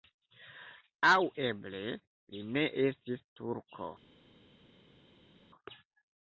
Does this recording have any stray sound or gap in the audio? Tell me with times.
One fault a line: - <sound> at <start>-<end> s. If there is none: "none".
none